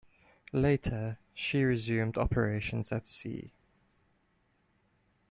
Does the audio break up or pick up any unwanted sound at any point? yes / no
no